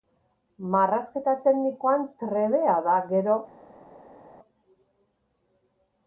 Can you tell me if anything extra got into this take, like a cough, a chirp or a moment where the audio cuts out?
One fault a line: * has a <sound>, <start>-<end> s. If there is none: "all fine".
all fine